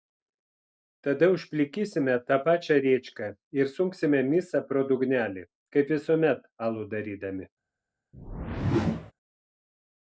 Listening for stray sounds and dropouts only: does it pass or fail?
fail